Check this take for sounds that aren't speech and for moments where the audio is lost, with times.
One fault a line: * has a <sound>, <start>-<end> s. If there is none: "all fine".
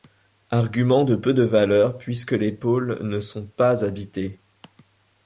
all fine